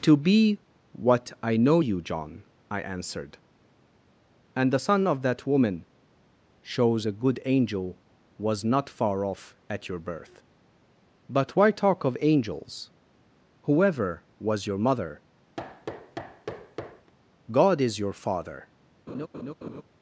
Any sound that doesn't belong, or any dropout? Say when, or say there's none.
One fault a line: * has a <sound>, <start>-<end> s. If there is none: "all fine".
* has a thud, 15.6-17.1 s
* has a laugh, 19.1-19.8 s